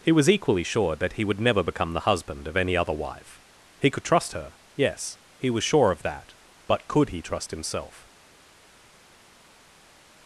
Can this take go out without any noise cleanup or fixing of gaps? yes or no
yes